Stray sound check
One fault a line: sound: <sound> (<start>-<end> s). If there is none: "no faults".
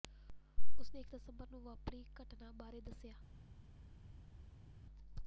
no faults